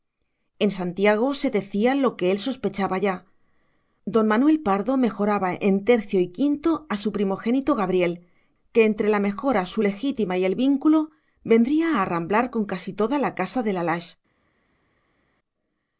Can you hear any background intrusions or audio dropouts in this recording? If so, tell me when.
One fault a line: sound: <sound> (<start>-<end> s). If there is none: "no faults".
no faults